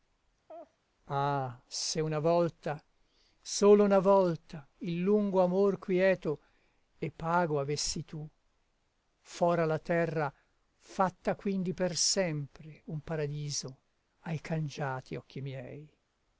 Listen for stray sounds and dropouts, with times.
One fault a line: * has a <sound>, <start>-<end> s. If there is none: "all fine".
* has a laugh, 0.5-0.8 s